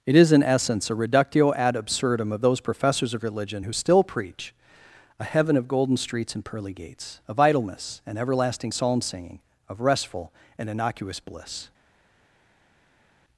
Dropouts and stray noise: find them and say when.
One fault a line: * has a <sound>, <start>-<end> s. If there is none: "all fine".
all fine